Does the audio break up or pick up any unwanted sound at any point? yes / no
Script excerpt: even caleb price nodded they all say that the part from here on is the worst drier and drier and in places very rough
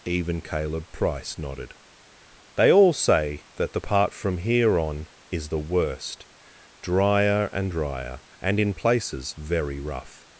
no